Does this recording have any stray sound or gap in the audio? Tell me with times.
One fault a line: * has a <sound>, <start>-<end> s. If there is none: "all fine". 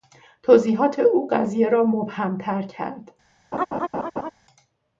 * has a laugh, 3.5-4.3 s